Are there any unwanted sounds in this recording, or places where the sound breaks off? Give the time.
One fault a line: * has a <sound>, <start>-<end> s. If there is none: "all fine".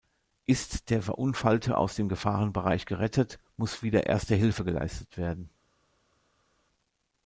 all fine